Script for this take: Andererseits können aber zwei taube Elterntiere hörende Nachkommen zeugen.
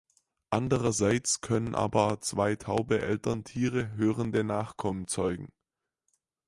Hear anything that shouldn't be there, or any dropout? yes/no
no